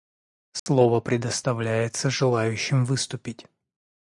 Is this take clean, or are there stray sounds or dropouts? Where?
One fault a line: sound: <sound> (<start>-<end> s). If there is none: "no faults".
sound: dropout (0.6-0.7 s)